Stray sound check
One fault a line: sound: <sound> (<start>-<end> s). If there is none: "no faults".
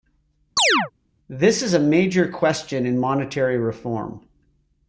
sound: chirp (0.6-0.9 s)